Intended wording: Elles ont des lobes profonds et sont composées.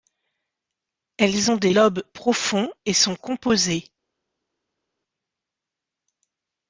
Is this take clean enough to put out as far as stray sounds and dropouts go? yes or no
yes